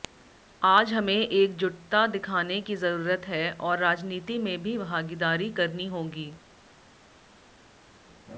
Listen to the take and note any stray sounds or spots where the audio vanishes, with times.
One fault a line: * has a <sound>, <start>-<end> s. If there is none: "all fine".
all fine